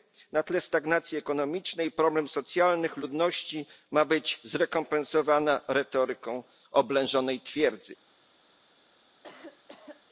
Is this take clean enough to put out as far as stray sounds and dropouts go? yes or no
no